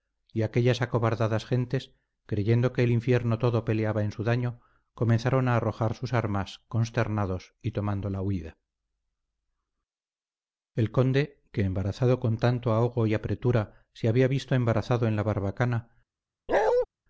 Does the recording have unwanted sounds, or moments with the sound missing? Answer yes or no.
yes